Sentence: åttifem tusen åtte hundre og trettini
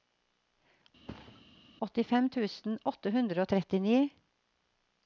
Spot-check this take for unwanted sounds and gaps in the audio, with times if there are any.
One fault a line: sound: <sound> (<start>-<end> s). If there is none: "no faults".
sound: thud (1.1-1.5 s)